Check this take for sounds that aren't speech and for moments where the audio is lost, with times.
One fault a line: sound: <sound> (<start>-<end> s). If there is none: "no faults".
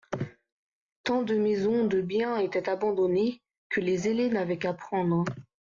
no faults